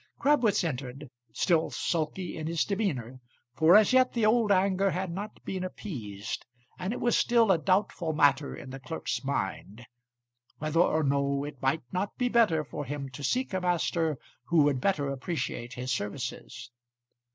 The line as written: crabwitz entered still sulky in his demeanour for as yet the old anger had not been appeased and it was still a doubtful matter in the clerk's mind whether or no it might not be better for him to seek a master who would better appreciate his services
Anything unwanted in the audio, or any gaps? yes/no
no